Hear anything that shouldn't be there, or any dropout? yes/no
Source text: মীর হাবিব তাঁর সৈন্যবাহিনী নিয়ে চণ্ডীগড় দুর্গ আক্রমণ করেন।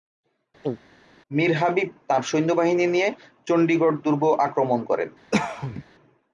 yes